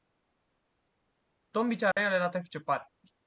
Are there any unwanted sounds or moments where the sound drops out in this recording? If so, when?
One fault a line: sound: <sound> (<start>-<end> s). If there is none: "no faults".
sound: dropout (1.9-2.0 s)